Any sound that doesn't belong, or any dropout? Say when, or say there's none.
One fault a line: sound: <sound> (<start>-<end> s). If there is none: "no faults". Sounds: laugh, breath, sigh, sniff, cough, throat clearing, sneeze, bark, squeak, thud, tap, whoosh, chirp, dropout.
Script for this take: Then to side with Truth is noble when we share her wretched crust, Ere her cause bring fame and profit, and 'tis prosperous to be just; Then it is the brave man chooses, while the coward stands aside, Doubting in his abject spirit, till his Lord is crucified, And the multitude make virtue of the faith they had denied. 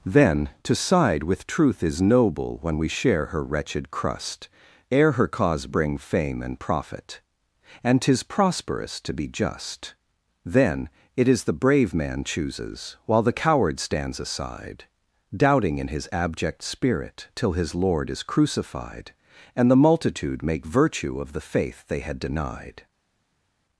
no faults